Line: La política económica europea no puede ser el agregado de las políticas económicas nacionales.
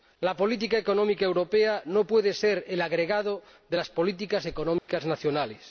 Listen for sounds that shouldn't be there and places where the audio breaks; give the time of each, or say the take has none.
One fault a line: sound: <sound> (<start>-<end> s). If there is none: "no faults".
sound: dropout (4.8-4.9 s)